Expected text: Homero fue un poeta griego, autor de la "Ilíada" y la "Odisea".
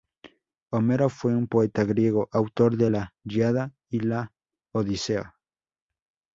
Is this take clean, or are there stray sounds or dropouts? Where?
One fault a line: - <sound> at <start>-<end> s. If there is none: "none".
none